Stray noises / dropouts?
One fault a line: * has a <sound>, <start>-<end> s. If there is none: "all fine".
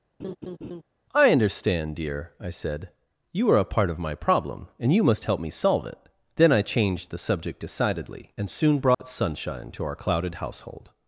* has a laugh, 0.2-0.8 s
* has a dropout, 8.9-9.0 s